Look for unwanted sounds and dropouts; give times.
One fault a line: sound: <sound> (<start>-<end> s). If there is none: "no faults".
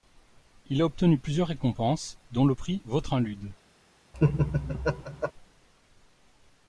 sound: laugh (4.1-5.3 s)